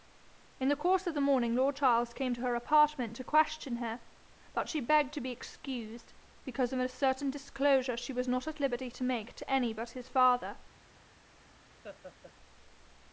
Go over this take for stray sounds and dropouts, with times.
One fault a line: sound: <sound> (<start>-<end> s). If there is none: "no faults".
sound: laugh (11.8-12.3 s)